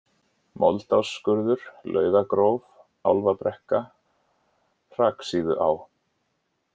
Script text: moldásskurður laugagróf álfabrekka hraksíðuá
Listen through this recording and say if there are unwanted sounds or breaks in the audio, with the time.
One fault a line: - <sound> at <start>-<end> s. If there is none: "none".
none